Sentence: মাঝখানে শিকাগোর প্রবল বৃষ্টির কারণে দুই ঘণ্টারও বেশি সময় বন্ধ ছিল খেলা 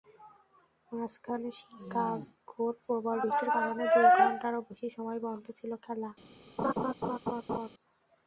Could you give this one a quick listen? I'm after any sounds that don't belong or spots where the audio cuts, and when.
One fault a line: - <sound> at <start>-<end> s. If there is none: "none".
- laugh at 6.6-7.7 s